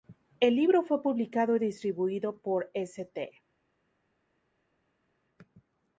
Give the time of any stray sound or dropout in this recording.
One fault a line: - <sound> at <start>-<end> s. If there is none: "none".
none